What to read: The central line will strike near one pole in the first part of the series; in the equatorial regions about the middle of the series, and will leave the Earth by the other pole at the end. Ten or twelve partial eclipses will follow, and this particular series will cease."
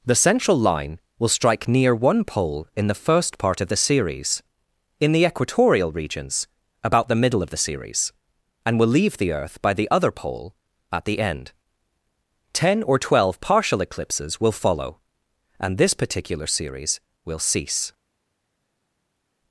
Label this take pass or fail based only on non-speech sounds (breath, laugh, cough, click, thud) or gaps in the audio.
pass